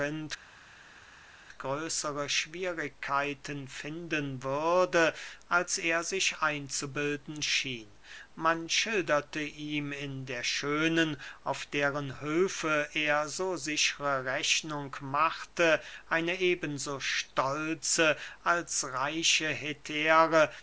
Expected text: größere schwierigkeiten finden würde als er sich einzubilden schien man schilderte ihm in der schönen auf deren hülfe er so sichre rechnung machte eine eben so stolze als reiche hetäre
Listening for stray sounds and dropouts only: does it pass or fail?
pass